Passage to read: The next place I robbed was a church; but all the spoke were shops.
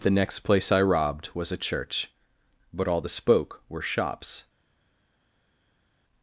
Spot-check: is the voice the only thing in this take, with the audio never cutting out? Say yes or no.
yes